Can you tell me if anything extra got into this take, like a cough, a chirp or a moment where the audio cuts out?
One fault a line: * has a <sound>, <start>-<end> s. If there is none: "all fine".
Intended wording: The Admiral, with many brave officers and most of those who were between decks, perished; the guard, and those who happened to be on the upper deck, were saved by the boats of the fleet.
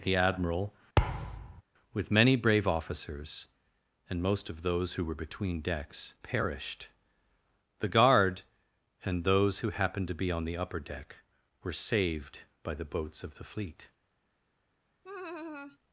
* has a thud, 1.0-1.6 s
* has a laugh, 15.0-15.8 s